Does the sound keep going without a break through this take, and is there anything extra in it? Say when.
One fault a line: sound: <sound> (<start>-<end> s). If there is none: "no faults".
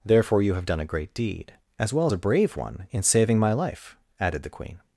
no faults